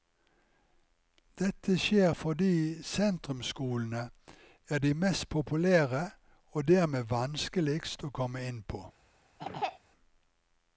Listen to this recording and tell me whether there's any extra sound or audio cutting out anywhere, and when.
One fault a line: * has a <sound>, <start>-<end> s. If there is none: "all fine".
* has a throat clearing, 9.4-9.8 s